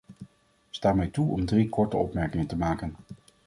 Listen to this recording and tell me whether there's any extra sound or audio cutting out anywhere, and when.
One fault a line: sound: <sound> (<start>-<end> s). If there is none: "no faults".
no faults